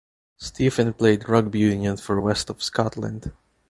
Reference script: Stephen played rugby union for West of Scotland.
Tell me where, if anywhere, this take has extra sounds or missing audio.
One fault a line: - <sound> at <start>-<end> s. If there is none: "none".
none